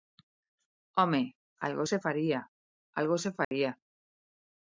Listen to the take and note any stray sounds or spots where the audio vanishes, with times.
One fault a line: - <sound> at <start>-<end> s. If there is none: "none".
- dropout at 3.4-3.5 s